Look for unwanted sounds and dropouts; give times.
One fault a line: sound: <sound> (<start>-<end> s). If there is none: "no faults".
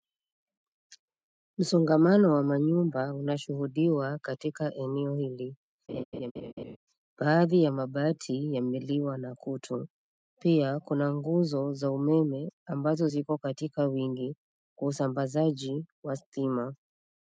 sound: laugh (5.9-6.8 s)